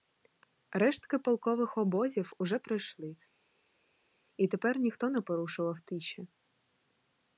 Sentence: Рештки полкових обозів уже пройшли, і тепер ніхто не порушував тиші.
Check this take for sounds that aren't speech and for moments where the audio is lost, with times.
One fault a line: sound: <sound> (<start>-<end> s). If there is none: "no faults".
no faults